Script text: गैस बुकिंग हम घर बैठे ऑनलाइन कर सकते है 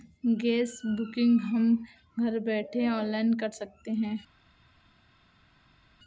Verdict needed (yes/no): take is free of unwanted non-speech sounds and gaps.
yes